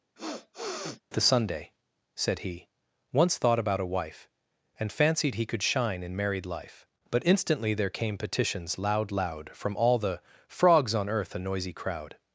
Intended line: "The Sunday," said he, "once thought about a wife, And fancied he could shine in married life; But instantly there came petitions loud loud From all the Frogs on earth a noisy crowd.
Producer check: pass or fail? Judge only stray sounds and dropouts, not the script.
fail